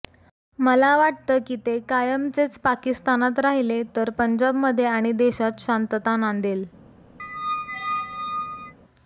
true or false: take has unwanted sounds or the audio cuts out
true